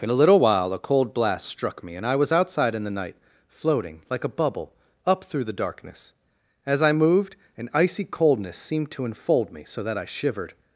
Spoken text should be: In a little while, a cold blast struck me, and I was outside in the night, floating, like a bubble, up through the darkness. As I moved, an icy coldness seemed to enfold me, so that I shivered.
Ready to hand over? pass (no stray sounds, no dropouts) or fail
pass